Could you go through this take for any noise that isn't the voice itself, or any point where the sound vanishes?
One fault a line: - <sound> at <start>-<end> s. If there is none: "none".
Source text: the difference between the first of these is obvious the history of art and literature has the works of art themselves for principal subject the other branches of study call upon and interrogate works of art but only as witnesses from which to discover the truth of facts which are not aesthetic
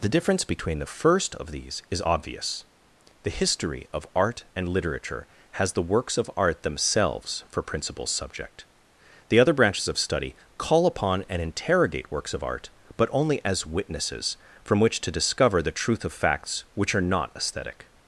none